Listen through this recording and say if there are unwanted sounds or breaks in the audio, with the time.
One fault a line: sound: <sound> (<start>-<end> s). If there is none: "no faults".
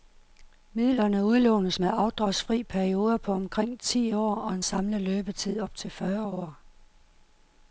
no faults